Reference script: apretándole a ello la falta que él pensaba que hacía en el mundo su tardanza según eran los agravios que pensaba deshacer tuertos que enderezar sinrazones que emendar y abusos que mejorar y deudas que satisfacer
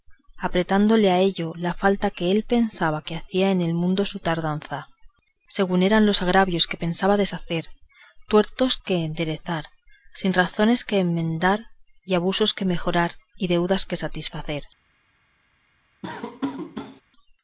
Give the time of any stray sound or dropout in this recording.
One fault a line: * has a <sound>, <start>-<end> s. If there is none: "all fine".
* has a laugh, 16.0-17.0 s